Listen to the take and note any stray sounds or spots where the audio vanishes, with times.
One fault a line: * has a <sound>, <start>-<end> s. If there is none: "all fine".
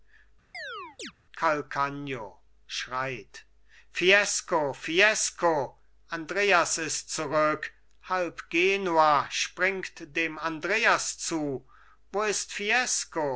* has a chirp, 0.5-1.1 s